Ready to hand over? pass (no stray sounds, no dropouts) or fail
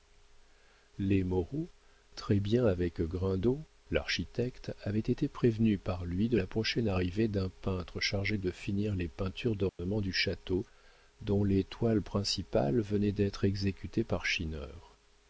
fail